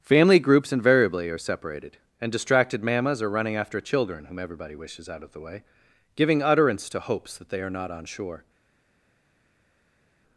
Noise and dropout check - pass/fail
pass